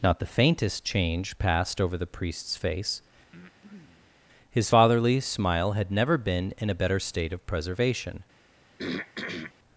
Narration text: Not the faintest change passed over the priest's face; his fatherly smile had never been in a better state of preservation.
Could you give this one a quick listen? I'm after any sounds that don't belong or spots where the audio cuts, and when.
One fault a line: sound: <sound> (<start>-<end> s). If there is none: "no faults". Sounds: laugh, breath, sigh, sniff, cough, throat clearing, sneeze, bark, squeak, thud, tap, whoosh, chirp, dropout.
sound: breath (3.3-4.2 s)
sound: throat clearing (8.8-9.5 s)